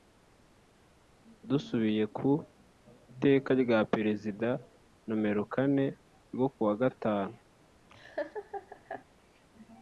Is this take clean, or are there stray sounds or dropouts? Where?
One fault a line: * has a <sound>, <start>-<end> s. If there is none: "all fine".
* has a laugh, 7.9-9.0 s